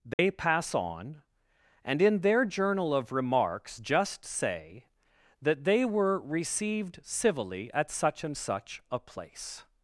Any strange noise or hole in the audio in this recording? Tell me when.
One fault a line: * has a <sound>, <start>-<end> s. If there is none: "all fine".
* has a dropout, 0.1-0.2 s